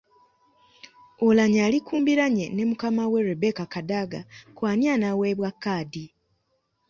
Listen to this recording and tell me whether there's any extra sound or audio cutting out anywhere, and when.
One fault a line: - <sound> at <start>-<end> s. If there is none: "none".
none